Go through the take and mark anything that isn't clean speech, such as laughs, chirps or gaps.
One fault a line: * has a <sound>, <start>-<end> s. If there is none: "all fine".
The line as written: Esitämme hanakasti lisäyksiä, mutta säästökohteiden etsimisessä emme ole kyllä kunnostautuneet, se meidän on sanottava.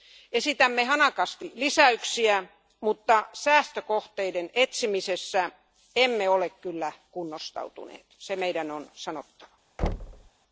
* has a thud, 9.8-10.3 s